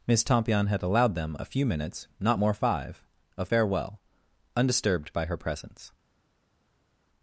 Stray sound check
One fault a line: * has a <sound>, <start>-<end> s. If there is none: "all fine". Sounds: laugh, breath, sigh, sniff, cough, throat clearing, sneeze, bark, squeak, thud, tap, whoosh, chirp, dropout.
all fine